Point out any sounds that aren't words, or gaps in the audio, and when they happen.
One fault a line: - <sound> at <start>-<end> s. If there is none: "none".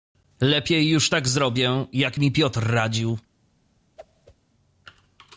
- whoosh at 4.0-4.4 s